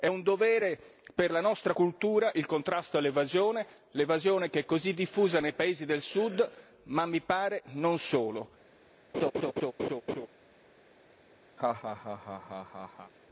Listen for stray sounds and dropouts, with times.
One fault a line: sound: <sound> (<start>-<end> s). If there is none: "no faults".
sound: laugh (9.1-10.3 s)
sound: laugh (11.6-13.1 s)